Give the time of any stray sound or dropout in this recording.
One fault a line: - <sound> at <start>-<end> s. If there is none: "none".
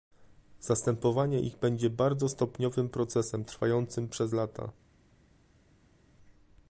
none